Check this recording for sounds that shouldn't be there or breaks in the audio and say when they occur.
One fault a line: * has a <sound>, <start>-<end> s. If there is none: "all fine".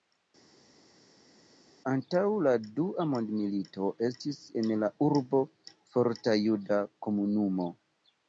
all fine